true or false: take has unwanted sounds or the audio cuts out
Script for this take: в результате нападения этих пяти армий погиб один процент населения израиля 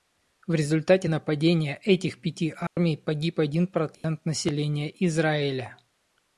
true